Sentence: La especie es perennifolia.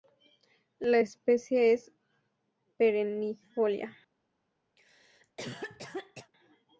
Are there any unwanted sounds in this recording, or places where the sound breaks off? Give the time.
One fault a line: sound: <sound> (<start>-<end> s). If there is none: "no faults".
sound: cough (4.8-6.3 s)